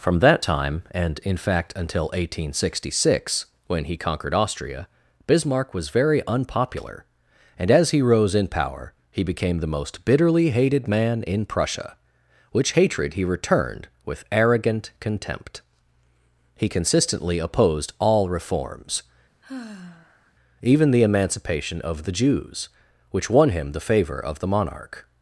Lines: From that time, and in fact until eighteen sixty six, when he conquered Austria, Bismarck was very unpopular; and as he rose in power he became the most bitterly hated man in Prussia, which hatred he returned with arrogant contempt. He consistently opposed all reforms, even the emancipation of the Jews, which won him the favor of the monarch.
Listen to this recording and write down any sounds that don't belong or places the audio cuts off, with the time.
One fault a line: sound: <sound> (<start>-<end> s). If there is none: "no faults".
sound: sigh (19.4-20.3 s)